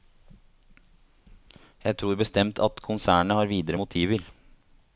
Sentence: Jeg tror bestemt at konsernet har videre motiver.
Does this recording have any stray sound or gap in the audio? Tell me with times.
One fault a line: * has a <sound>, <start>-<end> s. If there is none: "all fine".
all fine